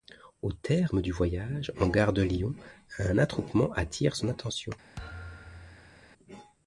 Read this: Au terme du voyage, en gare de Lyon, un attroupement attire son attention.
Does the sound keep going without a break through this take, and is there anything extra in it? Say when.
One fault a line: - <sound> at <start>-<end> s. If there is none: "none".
- thud at 5.0-6.1 s